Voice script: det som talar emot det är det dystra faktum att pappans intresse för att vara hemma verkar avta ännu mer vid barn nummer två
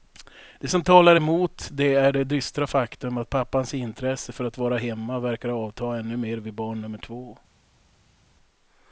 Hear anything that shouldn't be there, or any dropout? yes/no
no